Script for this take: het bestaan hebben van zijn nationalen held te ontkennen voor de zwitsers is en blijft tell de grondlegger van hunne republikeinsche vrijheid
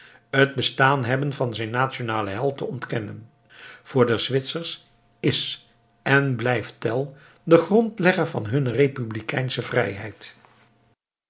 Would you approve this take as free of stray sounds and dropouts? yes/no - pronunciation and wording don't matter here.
yes